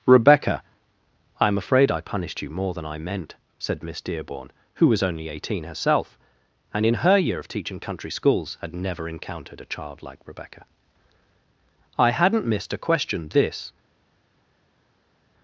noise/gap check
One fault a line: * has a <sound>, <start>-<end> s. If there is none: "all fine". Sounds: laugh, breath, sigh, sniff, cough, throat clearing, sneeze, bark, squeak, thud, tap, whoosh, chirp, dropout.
all fine